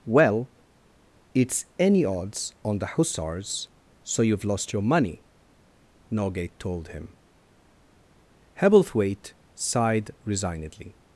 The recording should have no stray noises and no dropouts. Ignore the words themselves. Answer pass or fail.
pass